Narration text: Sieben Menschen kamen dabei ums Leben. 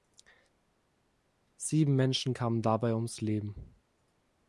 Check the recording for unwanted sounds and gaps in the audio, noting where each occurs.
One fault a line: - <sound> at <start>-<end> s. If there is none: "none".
none